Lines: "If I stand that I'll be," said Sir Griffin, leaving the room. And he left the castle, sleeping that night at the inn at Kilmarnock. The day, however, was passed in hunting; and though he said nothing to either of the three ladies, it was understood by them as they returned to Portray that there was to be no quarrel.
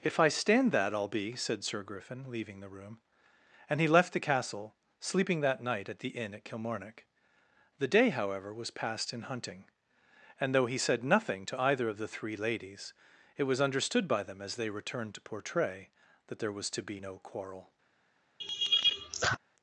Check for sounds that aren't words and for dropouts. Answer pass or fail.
fail